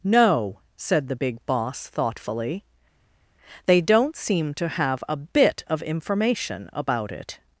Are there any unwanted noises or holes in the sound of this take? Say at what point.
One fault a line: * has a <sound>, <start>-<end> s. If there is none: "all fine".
all fine